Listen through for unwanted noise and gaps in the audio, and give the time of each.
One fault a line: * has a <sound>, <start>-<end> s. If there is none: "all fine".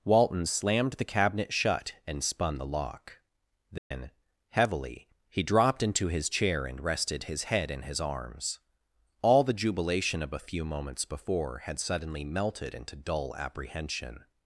* has a dropout, 3.8-3.9 s